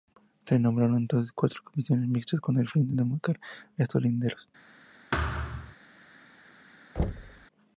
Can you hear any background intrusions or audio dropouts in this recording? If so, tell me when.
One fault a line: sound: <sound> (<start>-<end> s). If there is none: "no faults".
sound: thud (5.1-5.8 s)
sound: thud (7.0-7.5 s)